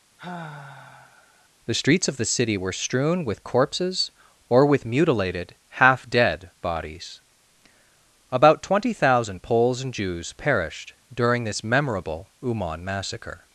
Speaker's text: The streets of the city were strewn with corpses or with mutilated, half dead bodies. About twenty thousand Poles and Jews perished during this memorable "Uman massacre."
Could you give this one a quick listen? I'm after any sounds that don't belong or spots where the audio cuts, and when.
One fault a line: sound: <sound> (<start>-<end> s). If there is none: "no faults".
sound: sigh (0.2-1.5 s)